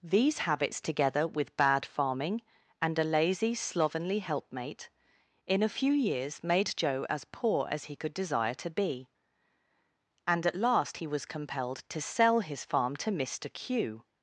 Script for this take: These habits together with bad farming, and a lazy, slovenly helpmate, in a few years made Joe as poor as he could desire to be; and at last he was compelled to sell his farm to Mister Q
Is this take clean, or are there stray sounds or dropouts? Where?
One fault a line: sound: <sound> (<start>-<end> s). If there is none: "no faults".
no faults